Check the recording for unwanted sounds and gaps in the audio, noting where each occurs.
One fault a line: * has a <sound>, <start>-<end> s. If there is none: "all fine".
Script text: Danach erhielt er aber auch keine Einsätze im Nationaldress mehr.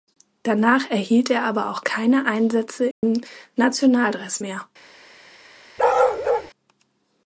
* has a dropout, 2.9-3.0 s
* has a bark, 5.8-6.5 s